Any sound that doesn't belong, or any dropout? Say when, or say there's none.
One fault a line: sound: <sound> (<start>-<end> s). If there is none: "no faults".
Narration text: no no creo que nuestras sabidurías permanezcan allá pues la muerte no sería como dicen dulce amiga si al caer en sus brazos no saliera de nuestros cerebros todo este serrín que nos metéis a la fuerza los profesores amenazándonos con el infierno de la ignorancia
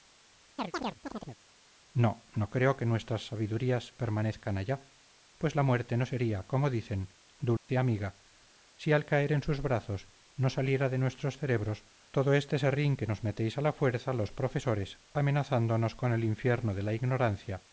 sound: chirp (0.6-1.4 s)
sound: dropout (7.6-7.7 s)